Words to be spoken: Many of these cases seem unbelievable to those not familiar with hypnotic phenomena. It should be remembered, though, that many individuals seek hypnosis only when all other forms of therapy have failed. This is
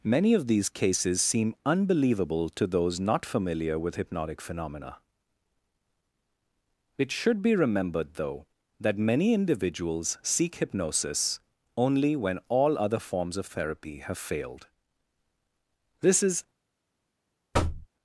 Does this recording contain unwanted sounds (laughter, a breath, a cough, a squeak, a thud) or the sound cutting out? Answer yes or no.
yes